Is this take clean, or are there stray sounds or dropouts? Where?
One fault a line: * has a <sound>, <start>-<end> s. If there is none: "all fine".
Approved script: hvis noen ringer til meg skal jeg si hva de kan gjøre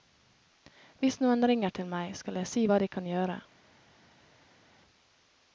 all fine